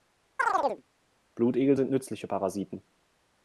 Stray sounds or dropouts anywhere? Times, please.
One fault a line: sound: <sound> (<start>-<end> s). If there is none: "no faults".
sound: chirp (0.4-0.8 s)